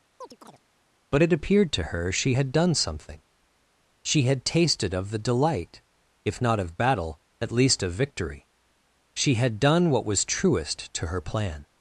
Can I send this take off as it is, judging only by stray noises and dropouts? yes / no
no